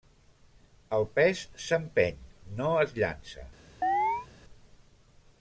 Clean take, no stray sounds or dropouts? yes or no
no